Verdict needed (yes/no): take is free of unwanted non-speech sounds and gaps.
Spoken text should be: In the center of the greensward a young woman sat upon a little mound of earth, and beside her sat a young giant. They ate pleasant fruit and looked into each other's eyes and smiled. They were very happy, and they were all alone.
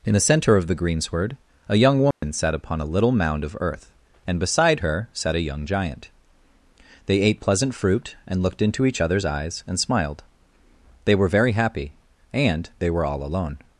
no